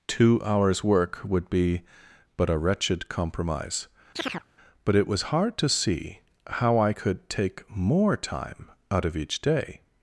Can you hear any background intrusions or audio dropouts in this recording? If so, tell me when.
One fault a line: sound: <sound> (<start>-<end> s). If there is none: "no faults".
sound: chirp (4.2-4.4 s)